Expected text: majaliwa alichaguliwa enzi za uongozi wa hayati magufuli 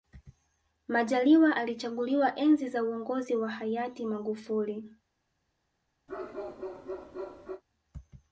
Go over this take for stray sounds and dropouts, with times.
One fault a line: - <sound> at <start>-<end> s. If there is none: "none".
- bark at 6.1-7.6 s